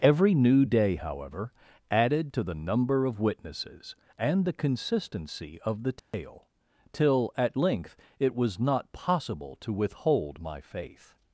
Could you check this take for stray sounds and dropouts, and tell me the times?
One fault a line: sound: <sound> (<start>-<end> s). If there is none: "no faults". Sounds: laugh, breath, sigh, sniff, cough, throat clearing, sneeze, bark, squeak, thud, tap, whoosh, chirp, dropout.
sound: dropout (6.0-6.1 s)